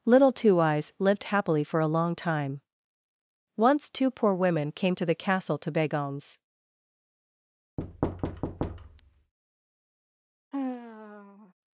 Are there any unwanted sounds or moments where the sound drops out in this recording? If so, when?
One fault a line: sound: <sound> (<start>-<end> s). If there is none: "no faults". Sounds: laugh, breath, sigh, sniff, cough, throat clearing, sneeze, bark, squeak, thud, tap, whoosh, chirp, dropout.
sound: thud (7.8-9.3 s)
sound: sigh (10.5-11.5 s)